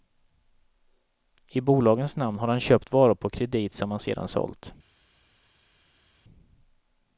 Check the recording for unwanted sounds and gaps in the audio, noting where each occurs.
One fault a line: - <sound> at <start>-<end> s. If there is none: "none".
none